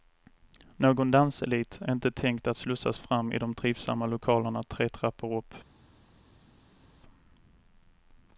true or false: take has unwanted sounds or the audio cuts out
false